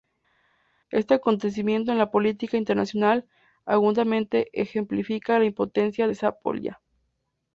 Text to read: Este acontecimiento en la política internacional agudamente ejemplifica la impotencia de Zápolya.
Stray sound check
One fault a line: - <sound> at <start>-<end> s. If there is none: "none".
none